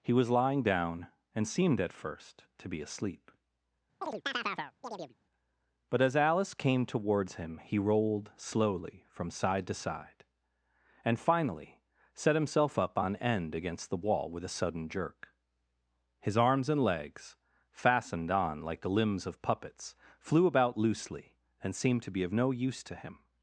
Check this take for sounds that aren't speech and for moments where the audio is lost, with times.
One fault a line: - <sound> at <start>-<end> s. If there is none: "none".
- chirp at 4.0-5.1 s